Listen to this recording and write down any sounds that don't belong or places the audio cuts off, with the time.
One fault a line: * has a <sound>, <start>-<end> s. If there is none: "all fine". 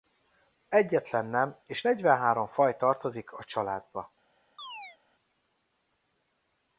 * has a chirp, 4.6-5.0 s